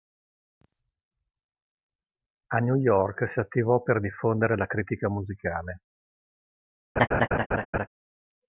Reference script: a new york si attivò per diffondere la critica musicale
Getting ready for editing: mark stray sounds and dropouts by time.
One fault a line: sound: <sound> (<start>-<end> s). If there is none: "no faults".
sound: laugh (7.0-7.9 s)